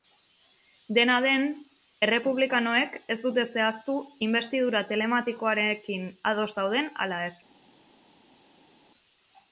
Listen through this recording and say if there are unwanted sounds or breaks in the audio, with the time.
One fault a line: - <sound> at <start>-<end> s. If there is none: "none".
none